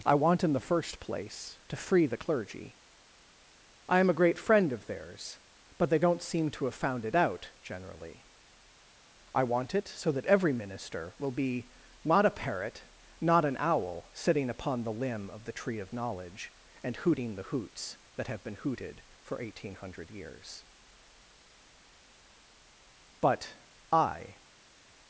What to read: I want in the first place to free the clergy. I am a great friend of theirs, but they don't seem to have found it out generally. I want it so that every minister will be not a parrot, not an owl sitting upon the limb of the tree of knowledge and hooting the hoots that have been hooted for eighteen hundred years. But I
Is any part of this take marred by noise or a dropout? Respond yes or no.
no